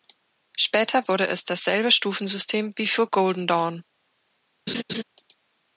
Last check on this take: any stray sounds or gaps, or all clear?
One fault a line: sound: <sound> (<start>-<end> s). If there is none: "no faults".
sound: laugh (4.7-5.0 s)